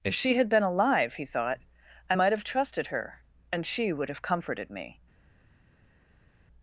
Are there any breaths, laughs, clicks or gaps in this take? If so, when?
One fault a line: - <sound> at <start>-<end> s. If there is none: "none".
none